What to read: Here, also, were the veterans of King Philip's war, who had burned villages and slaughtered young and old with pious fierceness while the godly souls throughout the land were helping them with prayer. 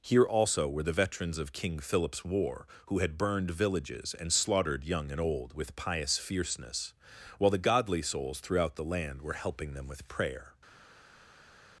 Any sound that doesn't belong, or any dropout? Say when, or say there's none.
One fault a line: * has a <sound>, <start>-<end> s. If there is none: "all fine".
all fine